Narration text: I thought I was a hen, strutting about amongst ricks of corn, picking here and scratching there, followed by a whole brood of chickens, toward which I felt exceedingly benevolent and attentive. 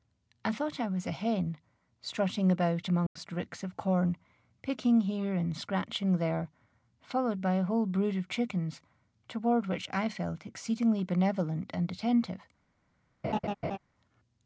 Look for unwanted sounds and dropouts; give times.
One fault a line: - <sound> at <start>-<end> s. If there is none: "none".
- dropout at 3.1-3.2 s
- laugh at 13.2-13.8 s